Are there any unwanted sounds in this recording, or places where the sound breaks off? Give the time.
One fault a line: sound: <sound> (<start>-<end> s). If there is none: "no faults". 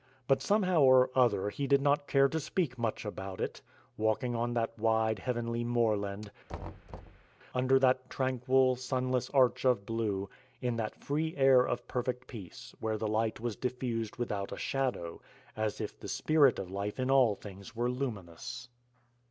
sound: thud (6.5-7.3 s)